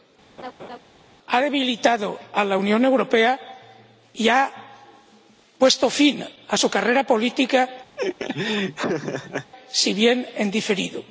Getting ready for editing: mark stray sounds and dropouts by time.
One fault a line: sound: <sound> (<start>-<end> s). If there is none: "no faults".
sound: laugh (0.4-0.8 s)
sound: laugh (8.0-9.5 s)